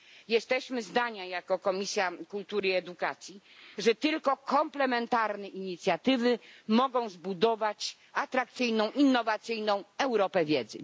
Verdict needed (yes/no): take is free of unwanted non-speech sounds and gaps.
yes